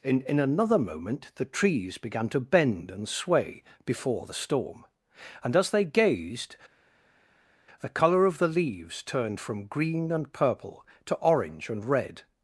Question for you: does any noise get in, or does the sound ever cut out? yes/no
no